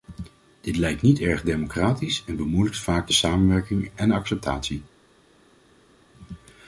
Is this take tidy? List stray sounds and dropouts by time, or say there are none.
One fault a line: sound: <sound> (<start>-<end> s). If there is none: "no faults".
no faults